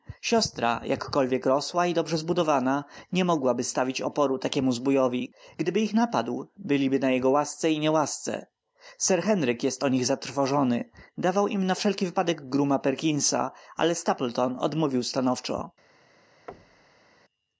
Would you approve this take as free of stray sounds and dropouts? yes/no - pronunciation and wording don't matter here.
no